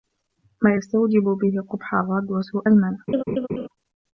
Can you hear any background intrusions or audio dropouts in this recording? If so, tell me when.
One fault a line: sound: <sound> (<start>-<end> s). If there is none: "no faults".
sound: laugh (3.1-3.7 s)